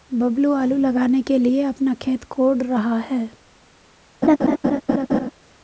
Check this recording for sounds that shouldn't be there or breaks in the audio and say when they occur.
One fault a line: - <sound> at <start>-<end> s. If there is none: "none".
- laugh at 4.2-5.3 s